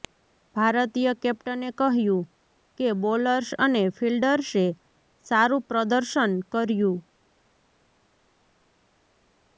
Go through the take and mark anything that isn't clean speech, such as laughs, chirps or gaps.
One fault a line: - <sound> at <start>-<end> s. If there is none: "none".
none